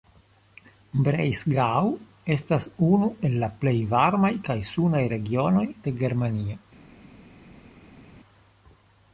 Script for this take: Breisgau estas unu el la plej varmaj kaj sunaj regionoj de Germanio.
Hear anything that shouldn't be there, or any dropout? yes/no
no